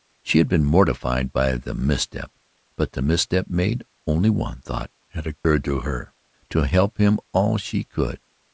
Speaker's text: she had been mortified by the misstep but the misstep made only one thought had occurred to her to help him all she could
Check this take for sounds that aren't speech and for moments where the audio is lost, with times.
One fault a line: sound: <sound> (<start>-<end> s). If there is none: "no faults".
sound: dropout (5.4-5.4 s)